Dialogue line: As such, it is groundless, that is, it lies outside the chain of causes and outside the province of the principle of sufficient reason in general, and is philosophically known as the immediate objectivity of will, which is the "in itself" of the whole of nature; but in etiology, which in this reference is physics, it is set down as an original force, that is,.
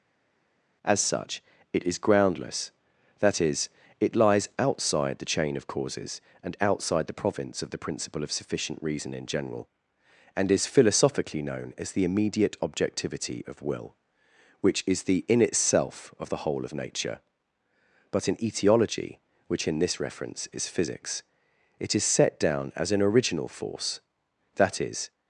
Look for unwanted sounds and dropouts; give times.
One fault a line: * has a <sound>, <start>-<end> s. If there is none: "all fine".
all fine